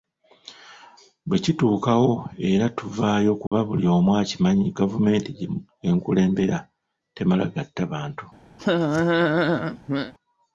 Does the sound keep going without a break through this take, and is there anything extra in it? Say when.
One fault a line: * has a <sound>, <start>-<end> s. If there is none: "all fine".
* has a dropout, 3.5-3.5 s
* has a laugh, 8.6-10.1 s